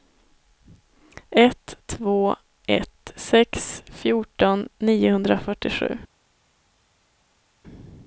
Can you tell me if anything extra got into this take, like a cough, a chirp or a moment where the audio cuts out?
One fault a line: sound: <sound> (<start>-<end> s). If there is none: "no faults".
no faults